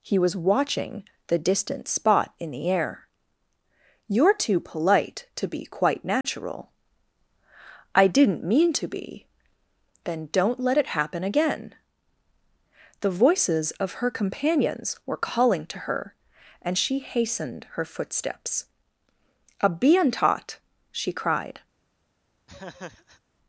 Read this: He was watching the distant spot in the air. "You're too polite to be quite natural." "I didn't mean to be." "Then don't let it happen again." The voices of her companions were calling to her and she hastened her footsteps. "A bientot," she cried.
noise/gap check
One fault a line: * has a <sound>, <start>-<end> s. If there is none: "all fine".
* has a dropout, 6.2-6.2 s
* has a laugh, 22.5-23.2 s